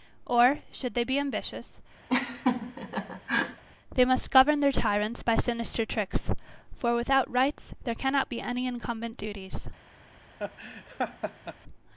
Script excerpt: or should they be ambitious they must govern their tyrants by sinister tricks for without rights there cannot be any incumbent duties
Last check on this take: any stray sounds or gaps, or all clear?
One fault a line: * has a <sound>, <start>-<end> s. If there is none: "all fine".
* has a laugh, 2.1-3.6 s
* has a laugh, 10.4-11.5 s